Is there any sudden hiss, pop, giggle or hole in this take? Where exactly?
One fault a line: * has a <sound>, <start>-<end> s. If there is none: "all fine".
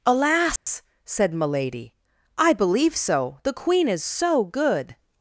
* has a dropout, 0.6-0.7 s